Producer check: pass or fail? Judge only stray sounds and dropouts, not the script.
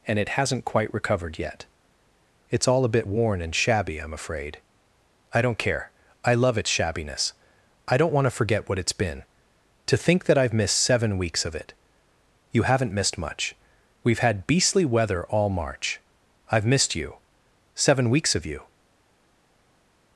pass